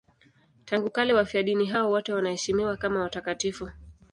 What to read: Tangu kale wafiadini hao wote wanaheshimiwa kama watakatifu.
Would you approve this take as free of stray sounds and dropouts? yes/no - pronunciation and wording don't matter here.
yes